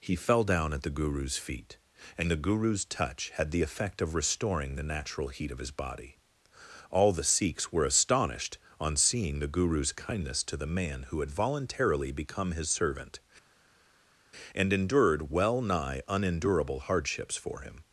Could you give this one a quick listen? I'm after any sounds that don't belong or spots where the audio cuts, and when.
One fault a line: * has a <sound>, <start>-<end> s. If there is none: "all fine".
all fine